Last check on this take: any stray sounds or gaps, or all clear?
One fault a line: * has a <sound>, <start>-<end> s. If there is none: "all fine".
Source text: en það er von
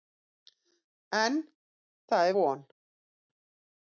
all fine